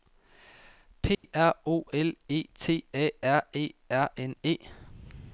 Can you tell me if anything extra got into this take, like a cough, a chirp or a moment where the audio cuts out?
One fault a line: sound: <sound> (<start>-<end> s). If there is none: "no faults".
sound: dropout (1.1-1.2 s)